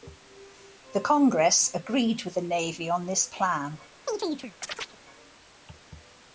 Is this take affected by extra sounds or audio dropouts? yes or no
yes